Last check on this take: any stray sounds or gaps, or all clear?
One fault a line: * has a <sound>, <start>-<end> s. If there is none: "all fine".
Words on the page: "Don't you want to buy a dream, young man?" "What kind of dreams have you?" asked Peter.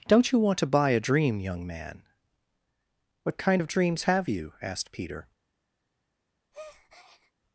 * has a breath, 6.5-7.3 s